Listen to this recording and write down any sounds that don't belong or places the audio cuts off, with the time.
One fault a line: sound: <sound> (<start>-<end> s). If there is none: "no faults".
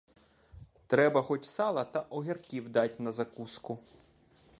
no faults